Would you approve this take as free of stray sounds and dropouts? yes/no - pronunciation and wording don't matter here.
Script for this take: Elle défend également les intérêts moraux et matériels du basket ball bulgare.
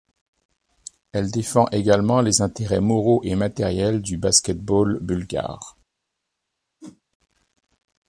no